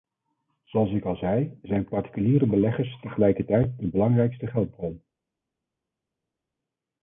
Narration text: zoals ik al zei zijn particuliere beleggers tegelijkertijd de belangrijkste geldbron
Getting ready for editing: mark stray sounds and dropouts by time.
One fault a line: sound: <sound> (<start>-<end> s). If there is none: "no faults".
no faults